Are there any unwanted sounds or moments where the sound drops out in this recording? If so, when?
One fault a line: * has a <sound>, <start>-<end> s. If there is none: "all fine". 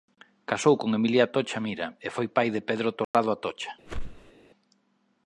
* has a dropout, 3.0-3.1 s
* has a whoosh, 3.9-4.3 s